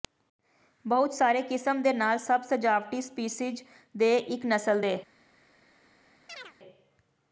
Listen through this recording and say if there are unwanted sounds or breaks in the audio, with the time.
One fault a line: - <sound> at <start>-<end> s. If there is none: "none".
- chirp at 6.3-6.5 s